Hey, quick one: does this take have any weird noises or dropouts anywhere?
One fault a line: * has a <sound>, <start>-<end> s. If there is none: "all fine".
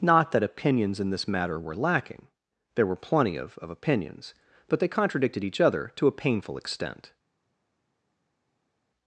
all fine